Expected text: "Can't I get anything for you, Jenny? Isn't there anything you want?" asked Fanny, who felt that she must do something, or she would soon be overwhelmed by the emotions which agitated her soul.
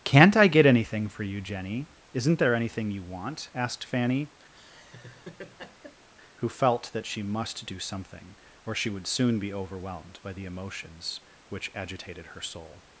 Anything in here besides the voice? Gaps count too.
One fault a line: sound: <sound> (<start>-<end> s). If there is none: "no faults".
sound: laugh (4.5-6.1 s)